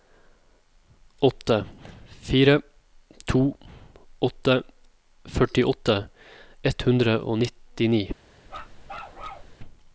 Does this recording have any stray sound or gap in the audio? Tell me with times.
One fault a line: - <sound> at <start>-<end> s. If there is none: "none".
- bark at 8.5-9.5 s